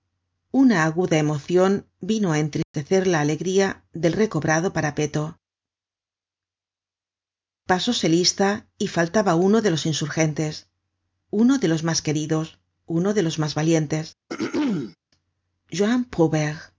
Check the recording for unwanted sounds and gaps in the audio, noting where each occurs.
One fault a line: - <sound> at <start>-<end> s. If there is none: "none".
- dropout at 2.6-2.7 s
- throat clearing at 14.3-15.0 s